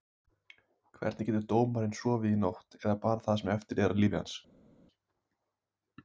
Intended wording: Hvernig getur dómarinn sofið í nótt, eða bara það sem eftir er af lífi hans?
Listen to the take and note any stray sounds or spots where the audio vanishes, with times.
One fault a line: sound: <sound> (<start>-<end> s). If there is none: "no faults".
no faults